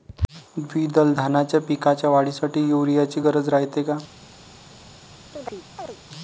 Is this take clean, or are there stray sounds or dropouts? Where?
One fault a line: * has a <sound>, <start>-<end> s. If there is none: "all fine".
* has a chirp, 5.3-6.0 s